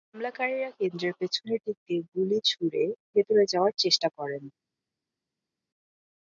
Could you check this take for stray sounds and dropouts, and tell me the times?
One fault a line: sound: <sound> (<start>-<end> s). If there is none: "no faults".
no faults